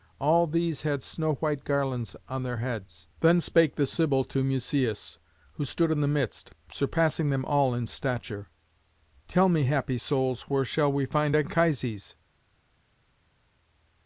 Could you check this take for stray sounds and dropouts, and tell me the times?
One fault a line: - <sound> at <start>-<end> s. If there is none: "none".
none